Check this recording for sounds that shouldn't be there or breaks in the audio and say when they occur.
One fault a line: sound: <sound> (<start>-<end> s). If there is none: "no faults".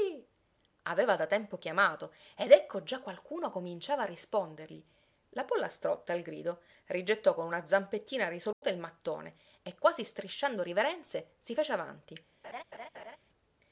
sound: dropout (8.5-8.6 s)
sound: laugh (12.4-13.2 s)